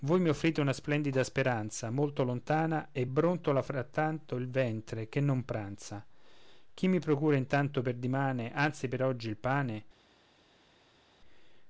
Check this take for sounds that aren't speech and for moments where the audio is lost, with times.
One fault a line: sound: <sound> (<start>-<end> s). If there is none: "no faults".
no faults